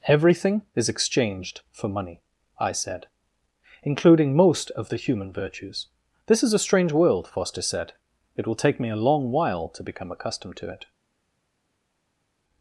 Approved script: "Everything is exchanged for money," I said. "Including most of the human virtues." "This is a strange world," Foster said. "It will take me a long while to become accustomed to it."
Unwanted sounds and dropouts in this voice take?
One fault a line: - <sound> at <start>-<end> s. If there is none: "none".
none